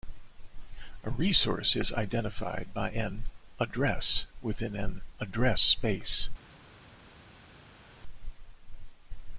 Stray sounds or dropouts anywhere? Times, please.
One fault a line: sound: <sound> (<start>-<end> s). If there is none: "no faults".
no faults